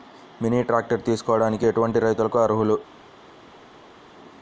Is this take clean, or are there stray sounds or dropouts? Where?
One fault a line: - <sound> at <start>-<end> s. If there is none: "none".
none